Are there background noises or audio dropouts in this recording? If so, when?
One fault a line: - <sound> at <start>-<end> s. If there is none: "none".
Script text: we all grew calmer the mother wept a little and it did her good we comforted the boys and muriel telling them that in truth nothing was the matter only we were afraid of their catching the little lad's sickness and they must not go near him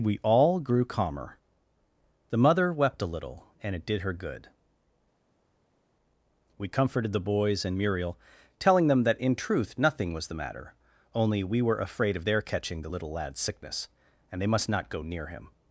none